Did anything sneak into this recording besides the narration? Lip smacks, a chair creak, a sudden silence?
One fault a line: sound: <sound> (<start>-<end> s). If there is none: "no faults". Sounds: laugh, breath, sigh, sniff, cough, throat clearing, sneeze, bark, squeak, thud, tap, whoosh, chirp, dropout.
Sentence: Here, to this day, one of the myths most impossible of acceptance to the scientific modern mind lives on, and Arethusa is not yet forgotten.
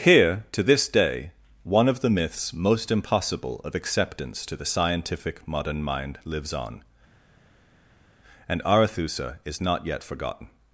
no faults